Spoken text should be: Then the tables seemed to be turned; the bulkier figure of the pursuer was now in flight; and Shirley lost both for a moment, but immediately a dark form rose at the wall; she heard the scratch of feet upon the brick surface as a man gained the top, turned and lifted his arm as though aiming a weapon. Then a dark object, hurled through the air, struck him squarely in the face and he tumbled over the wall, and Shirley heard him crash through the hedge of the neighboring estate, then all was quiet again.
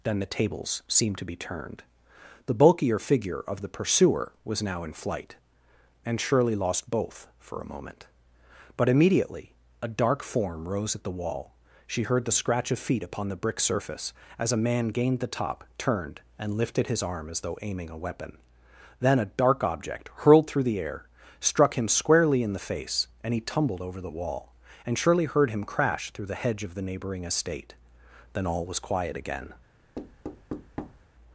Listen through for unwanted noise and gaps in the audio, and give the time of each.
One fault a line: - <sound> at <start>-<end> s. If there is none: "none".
- thud at 30.0-31.1 s